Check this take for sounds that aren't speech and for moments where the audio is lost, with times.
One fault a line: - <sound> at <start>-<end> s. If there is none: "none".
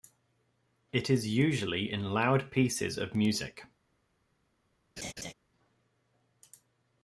- laugh at 5.0-5.3 s